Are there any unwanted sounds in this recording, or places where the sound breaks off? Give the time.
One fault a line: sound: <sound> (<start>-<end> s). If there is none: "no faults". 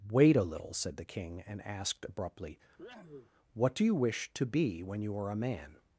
sound: sneeze (2.8-3.3 s)